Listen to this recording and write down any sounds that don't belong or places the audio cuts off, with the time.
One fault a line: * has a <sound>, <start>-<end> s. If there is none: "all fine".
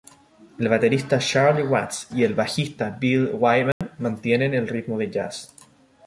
* has a dropout, 3.7-3.8 s